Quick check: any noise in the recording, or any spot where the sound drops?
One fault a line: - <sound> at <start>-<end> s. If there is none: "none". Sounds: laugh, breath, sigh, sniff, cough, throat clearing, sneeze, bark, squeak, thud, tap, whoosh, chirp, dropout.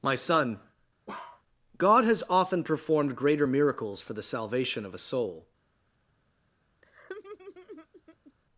- bark at 1.1-1.4 s
- laugh at 6.8-8.3 s